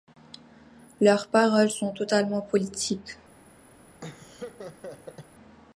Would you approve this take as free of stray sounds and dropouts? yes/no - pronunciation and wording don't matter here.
no